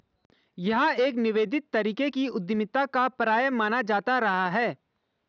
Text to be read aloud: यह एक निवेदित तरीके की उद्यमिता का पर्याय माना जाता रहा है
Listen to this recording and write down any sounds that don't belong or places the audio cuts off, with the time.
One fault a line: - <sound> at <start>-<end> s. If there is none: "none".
none